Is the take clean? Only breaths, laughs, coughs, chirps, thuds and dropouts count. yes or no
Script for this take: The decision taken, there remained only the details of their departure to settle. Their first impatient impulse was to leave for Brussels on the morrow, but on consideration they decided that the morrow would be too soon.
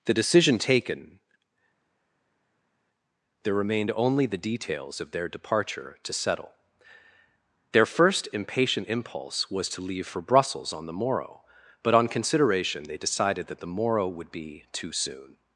yes